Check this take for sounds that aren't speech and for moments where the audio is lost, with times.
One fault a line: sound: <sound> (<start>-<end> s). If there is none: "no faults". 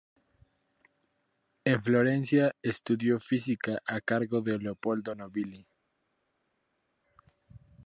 no faults